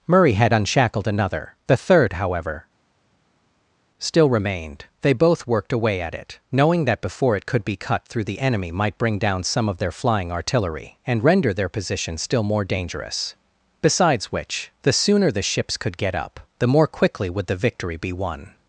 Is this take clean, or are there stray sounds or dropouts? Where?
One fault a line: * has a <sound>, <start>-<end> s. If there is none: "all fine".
all fine